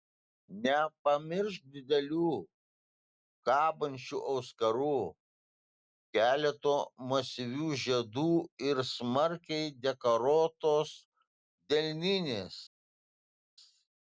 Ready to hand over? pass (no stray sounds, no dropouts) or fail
pass